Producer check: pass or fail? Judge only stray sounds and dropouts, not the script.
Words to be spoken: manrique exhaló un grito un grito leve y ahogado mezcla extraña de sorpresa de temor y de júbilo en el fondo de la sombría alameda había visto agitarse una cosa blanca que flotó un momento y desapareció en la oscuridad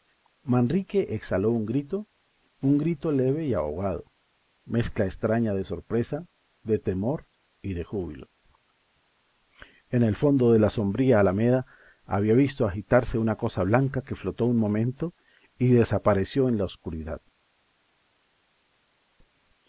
pass